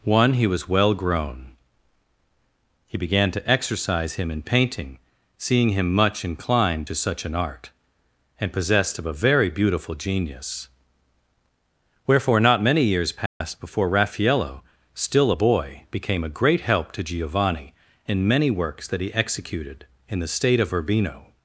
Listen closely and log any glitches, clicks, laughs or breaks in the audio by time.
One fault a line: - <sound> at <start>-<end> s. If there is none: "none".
- dropout at 13.3-13.4 s